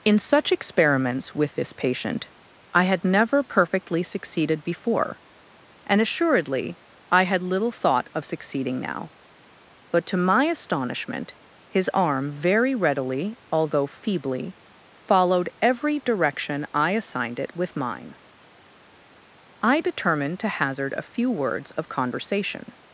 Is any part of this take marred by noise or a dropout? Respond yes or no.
no